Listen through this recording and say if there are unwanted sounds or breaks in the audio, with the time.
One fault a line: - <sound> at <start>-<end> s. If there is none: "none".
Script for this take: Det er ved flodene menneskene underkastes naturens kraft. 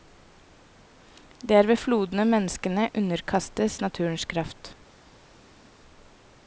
none